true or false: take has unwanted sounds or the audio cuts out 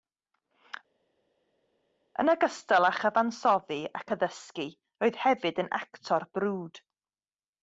false